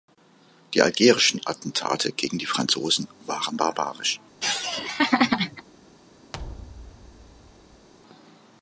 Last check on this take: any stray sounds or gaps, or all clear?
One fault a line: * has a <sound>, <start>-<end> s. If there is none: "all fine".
* has a laugh, 4.4-5.6 s
* has a thud, 6.3-7.9 s